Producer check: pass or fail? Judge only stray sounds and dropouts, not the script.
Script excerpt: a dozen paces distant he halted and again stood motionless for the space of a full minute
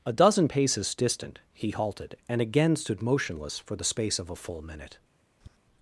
fail